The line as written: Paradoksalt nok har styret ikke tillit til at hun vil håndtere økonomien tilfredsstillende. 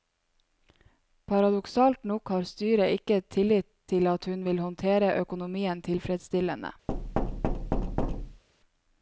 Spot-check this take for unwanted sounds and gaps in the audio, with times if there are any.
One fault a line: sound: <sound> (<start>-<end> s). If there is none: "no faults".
sound: thud (6.9-8.4 s)